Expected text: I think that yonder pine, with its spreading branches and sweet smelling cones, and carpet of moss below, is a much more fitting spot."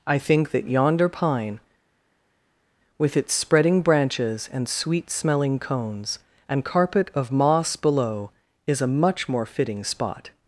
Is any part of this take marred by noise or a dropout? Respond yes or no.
no